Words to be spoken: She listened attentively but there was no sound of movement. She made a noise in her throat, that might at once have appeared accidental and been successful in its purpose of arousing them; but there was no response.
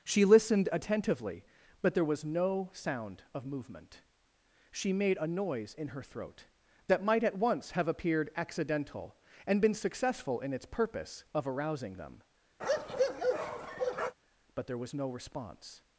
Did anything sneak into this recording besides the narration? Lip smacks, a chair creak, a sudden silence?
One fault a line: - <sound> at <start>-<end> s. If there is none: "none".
- bark at 12.6-14.2 s